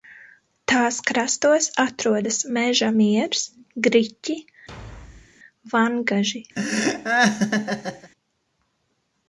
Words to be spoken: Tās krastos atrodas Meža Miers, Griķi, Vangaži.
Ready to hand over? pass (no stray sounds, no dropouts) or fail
fail